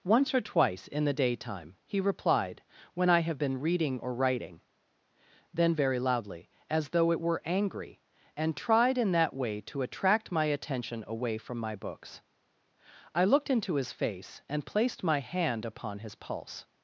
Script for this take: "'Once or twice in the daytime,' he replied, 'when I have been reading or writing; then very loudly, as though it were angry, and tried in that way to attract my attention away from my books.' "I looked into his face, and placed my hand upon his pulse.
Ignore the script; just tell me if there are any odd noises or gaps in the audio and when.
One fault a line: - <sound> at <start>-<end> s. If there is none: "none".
none